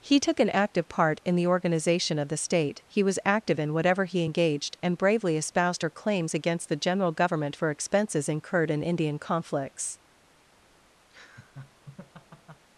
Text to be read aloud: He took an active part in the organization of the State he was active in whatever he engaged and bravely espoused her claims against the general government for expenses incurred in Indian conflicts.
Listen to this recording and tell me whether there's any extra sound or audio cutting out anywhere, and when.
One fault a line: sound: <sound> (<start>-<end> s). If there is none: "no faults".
sound: laugh (11.1-12.6 s)